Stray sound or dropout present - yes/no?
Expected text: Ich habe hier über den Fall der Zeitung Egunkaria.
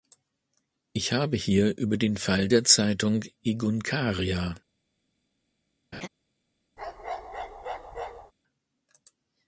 yes